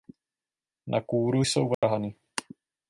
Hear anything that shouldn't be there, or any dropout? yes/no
yes